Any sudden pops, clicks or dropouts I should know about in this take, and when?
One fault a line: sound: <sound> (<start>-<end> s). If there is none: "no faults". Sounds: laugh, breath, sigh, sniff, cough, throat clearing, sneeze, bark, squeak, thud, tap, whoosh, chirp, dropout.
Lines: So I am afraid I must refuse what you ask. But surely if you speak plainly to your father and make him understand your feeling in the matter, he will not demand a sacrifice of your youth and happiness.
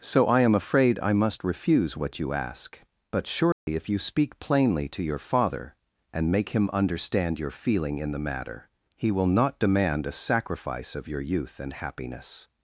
sound: dropout (3.5-3.7 s)